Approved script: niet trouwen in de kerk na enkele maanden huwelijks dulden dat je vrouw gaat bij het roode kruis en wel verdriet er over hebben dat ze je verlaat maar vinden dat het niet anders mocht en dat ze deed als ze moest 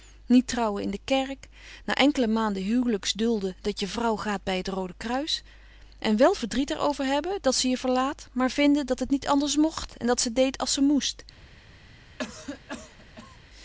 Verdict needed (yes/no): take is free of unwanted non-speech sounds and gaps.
no